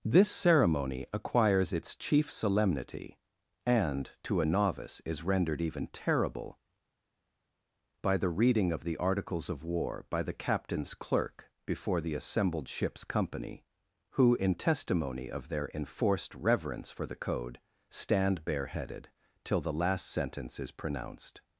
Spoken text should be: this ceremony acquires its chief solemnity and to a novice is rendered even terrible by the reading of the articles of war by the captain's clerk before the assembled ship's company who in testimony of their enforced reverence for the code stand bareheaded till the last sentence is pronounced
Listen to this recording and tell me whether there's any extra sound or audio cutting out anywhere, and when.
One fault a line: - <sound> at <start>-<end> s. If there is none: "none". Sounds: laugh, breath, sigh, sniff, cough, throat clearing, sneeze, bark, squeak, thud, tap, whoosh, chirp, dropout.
none